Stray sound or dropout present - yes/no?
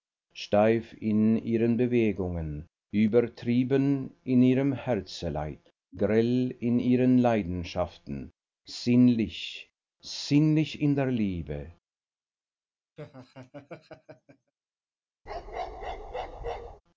yes